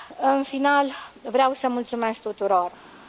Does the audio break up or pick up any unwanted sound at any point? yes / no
no